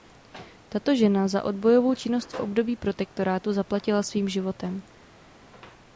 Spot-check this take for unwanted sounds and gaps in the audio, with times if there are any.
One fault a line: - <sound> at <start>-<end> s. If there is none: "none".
none